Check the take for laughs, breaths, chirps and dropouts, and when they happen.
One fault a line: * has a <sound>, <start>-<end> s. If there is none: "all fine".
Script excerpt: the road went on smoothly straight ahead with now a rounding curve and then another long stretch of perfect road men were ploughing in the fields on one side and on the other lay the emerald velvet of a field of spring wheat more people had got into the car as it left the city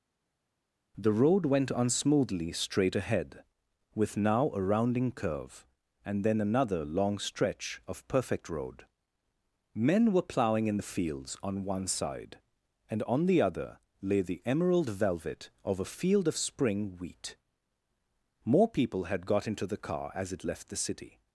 all fine